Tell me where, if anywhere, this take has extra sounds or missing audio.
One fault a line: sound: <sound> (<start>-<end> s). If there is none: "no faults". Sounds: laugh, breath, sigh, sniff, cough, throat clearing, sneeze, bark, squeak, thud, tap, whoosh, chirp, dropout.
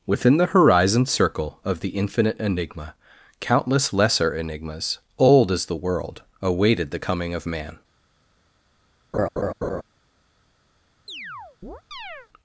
sound: laugh (9.1-9.8 s)
sound: chirp (11.1-12.3 s)